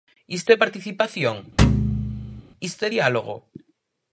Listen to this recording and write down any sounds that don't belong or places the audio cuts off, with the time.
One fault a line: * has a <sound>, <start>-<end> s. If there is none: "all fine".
* has a thud, 1.6-2.4 s